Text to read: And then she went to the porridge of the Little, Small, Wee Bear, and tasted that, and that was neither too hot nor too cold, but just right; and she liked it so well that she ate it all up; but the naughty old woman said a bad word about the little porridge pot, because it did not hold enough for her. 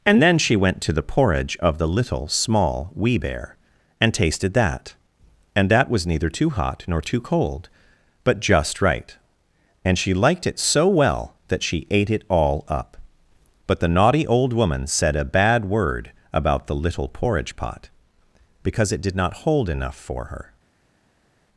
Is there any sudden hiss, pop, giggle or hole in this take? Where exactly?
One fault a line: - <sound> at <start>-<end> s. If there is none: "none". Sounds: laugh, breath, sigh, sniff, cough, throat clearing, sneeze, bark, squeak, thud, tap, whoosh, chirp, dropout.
none